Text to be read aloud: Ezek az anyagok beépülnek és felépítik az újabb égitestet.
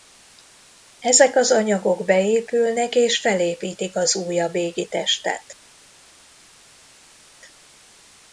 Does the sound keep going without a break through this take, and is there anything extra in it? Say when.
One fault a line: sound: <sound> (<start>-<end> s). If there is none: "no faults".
no faults